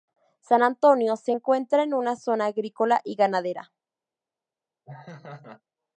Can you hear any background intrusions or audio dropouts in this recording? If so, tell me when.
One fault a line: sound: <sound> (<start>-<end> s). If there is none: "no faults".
sound: laugh (4.9-5.6 s)